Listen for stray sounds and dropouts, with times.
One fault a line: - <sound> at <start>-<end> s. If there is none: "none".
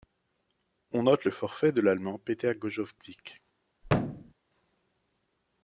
- thud at 3.8-4.3 s